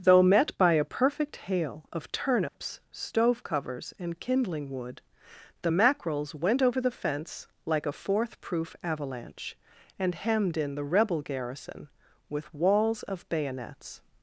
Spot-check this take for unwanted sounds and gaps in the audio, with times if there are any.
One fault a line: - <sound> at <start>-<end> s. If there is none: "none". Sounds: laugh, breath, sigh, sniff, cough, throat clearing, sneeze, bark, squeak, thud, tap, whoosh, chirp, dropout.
- dropout at 2.5-2.5 s